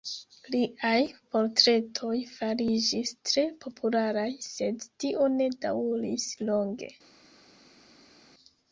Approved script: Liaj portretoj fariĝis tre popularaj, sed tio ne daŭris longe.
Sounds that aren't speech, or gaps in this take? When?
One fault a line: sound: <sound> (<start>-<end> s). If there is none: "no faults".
no faults